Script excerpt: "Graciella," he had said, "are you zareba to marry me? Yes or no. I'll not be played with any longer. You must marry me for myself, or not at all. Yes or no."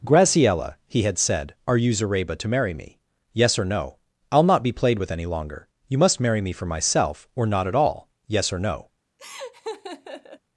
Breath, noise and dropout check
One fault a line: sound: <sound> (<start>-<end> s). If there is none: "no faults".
sound: laugh (9.2-10.4 s)